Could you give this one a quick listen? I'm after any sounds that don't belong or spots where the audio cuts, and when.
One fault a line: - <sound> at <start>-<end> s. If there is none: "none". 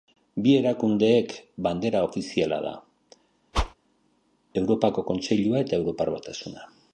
- whoosh at 3.5-3.7 s